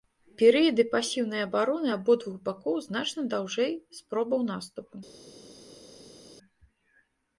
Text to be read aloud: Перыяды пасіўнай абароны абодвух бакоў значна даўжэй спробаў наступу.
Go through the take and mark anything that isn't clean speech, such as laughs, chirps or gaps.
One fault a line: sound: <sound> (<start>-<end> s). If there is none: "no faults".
no faults